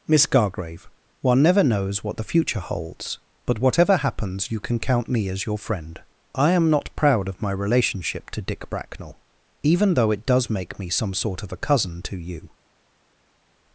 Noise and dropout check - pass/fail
pass